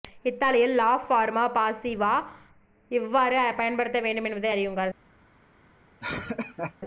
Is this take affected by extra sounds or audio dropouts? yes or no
yes